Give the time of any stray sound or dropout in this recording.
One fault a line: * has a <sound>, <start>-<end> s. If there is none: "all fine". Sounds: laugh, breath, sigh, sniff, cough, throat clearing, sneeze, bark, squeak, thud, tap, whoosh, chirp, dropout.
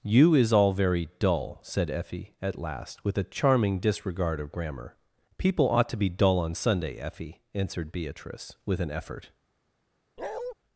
* has a bark, 10.2-10.5 s